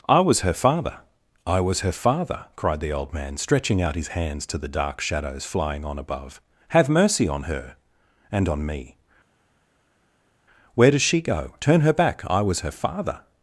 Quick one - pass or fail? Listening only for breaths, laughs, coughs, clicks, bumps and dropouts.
pass